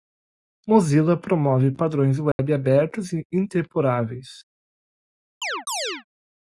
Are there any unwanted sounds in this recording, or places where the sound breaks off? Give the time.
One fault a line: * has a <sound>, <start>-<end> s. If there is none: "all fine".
* has a dropout, 2.3-2.4 s
* has a chirp, 5.4-6.0 s